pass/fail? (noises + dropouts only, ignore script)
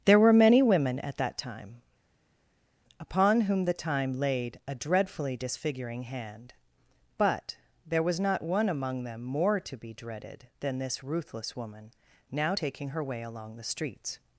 pass